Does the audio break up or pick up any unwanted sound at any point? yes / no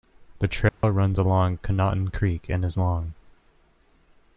yes